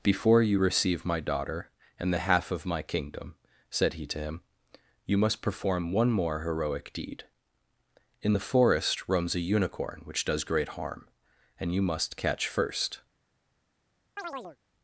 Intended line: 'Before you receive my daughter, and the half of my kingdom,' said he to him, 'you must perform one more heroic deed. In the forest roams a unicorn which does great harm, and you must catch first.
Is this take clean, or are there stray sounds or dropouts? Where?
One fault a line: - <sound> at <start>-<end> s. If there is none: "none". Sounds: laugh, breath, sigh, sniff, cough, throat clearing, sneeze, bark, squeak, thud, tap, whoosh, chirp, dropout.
- chirp at 14.2-14.6 s